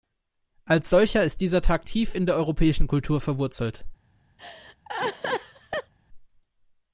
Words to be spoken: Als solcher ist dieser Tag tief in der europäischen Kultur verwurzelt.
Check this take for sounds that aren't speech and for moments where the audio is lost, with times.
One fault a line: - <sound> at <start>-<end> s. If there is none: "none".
- laugh at 4.4-5.9 s